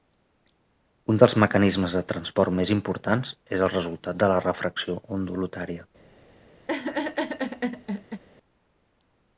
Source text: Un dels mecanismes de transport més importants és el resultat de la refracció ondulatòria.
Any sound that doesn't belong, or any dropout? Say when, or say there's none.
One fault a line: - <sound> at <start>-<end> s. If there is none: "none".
- laugh at 6.7-8.2 s